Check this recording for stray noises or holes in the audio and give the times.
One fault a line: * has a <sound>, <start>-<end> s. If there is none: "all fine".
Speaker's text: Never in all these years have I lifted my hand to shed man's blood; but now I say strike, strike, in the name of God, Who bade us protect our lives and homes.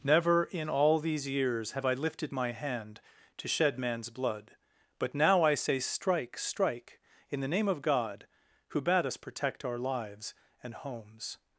all fine